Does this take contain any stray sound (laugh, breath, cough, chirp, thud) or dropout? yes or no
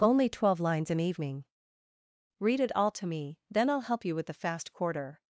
no